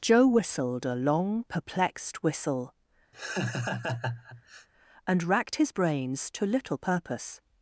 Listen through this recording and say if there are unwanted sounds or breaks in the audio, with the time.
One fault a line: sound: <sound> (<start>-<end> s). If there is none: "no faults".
sound: laugh (3.1-4.7 s)